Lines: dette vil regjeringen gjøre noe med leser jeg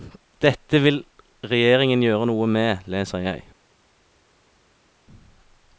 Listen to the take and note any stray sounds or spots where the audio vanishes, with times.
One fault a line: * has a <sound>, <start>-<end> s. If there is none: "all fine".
all fine